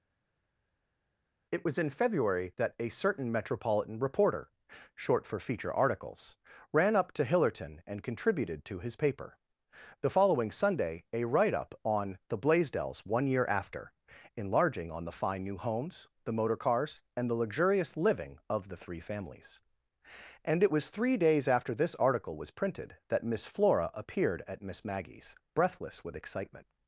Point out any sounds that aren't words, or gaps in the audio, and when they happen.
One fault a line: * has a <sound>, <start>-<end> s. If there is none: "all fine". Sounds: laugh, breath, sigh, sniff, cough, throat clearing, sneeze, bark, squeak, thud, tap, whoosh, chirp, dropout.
all fine